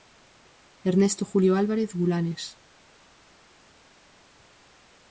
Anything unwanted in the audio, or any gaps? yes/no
no